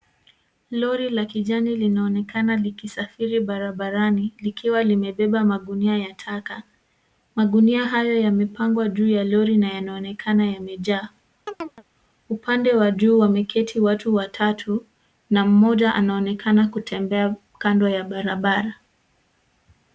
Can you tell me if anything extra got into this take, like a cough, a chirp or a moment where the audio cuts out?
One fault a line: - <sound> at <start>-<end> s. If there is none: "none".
- chirp at 11.5-11.8 s